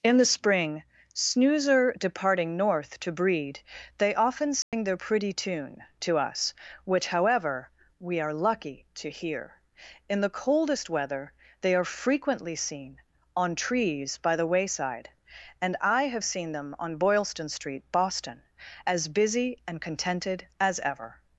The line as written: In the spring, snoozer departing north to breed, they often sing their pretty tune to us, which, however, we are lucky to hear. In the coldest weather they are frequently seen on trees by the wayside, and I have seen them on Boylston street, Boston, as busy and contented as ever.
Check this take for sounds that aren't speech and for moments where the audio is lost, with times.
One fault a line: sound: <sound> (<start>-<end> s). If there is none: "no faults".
sound: dropout (4.6-4.7 s)